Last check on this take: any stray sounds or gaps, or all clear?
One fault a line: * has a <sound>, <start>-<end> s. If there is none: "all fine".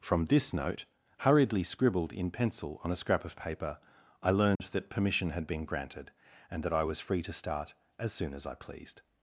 * has a dropout, 4.6-4.6 s